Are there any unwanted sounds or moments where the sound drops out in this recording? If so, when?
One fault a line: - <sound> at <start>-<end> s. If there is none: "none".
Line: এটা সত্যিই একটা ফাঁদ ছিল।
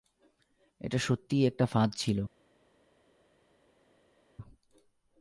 none